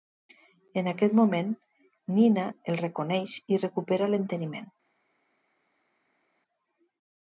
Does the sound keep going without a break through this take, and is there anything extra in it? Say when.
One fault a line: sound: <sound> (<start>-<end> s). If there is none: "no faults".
no faults